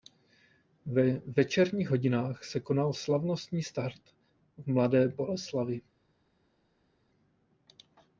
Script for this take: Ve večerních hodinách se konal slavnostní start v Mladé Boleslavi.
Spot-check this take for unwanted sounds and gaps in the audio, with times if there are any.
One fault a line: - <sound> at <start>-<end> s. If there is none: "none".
none